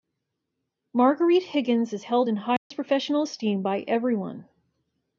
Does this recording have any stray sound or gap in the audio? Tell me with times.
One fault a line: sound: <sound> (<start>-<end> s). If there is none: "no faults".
sound: dropout (2.6-2.7 s)